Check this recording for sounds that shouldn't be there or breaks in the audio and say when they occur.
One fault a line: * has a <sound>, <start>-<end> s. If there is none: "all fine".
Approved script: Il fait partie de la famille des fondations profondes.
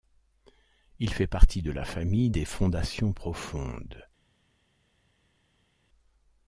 all fine